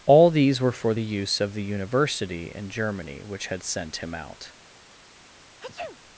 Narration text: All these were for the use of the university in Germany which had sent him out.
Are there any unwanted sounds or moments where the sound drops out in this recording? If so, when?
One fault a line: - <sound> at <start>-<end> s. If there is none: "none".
- sneeze at 5.6-6.0 s